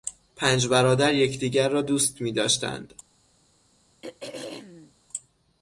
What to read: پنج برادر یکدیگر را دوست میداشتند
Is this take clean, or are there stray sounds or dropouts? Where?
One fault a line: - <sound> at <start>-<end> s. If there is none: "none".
- throat clearing at 4.0-4.9 s